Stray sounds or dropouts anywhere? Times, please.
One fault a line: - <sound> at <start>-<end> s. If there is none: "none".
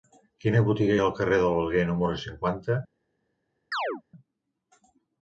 - chirp at 3.7-4.0 s